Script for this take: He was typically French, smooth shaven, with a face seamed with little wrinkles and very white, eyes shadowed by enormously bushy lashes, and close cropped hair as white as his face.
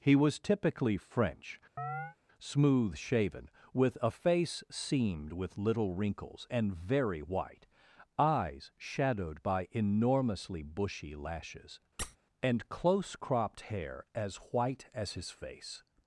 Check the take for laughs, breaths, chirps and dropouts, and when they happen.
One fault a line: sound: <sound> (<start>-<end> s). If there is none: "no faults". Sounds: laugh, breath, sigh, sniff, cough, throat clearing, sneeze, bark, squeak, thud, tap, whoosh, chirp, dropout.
sound: chirp (1.8-2.2 s)
sound: squeak (12.0-12.2 s)